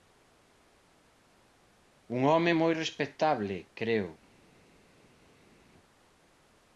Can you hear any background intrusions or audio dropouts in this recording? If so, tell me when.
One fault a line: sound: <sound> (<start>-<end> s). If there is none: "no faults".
no faults